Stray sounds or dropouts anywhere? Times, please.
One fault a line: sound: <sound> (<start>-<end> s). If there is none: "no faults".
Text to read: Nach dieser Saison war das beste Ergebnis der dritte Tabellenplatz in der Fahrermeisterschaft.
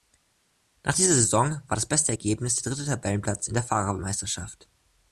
no faults